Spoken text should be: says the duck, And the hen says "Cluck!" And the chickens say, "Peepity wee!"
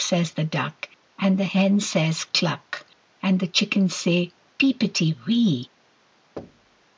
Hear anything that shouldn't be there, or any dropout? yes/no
yes